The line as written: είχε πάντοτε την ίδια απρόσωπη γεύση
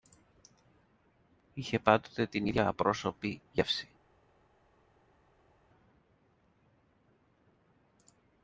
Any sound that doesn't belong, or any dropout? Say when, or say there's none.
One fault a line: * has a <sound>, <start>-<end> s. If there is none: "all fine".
all fine